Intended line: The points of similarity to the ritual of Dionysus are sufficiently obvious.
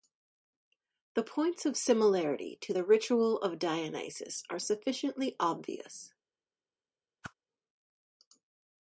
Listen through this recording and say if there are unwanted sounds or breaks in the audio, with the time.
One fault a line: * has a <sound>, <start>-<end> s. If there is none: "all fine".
* has a whoosh, 7.2-7.3 s